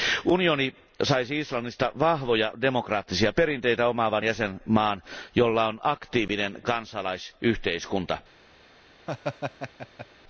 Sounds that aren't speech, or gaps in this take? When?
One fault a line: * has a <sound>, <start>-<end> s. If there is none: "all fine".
* has a laugh, 9.1-10.1 s